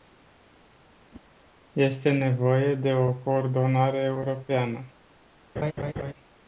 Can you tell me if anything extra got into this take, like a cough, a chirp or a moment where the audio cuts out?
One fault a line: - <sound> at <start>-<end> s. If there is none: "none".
- whoosh at 1.1-1.3 s
- laugh at 5.6-6.1 s